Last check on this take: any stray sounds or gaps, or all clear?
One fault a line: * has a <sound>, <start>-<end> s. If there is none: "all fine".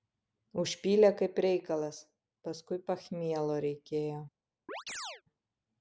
* has a chirp, 4.7-5.2 s